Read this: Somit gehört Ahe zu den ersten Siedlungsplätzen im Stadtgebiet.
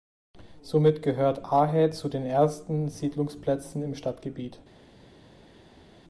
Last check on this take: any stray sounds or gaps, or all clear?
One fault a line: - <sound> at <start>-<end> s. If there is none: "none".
none